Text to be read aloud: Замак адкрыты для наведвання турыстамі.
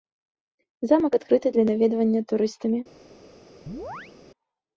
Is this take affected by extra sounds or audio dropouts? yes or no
yes